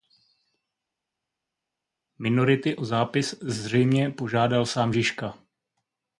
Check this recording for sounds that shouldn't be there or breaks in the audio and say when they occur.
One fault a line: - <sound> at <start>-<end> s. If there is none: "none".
none